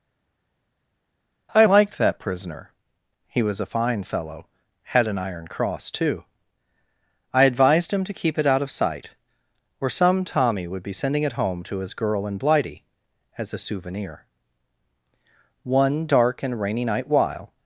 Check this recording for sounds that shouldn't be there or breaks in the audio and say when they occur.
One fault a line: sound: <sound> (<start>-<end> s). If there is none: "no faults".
no faults